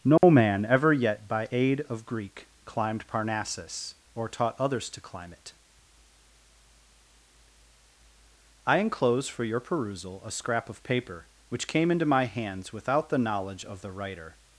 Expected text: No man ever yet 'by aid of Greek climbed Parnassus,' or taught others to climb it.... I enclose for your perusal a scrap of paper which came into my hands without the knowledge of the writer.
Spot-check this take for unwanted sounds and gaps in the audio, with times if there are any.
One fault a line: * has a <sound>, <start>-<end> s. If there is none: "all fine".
* has a dropout, 0.2-0.2 s